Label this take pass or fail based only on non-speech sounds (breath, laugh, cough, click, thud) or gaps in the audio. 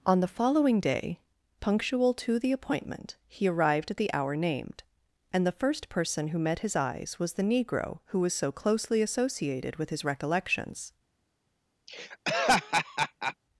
fail